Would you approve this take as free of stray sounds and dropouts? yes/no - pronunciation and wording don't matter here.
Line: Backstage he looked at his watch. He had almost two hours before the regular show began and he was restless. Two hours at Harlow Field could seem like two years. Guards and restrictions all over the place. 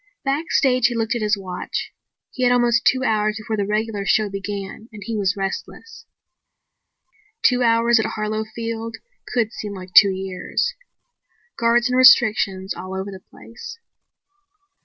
yes